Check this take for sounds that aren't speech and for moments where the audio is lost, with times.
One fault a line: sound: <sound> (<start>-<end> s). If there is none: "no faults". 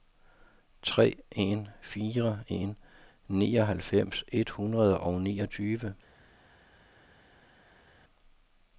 no faults